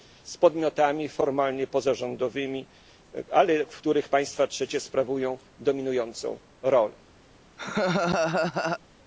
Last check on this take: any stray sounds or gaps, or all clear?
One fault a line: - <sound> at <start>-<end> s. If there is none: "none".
- laugh at 7.6-8.8 s